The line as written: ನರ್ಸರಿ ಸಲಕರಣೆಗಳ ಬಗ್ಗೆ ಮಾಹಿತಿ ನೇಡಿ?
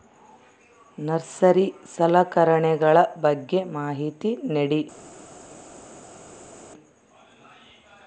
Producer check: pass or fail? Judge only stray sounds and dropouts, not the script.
pass